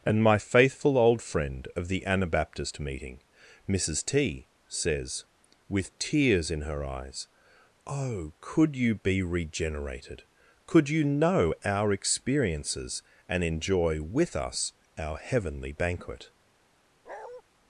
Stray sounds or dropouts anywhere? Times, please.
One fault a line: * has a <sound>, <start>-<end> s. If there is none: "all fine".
* has a bark, 17.1-17.4 s